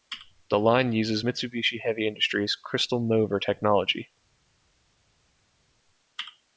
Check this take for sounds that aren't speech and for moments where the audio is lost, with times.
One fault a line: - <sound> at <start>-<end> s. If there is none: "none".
none